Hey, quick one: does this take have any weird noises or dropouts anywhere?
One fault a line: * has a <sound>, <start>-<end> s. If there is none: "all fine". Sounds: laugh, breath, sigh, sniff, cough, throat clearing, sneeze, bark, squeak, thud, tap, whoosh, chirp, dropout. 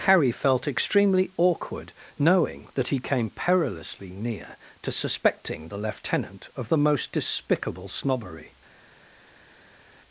all fine